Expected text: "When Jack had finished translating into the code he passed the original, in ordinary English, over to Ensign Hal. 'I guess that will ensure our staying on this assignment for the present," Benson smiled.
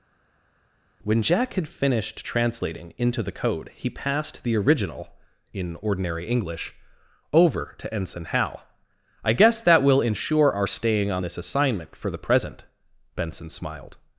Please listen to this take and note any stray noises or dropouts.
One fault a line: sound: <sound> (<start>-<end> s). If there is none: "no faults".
no faults